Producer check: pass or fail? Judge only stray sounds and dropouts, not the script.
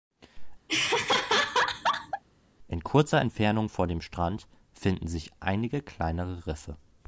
fail